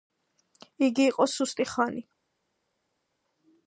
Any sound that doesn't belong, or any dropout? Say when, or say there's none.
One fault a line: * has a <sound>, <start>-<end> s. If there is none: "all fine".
all fine